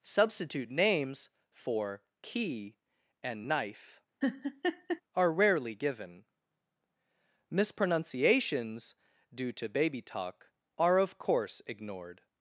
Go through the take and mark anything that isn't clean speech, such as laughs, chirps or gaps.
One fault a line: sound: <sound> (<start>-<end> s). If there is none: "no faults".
sound: laugh (4.2-5.0 s)